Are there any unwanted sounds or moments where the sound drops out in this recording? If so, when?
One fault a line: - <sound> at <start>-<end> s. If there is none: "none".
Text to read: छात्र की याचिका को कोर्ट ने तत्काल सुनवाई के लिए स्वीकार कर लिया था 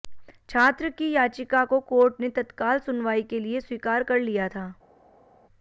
none